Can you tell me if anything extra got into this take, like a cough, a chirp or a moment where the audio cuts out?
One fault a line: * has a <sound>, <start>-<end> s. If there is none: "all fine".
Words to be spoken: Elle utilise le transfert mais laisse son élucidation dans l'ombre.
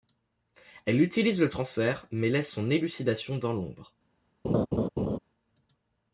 * has a laugh, 4.4-5.2 s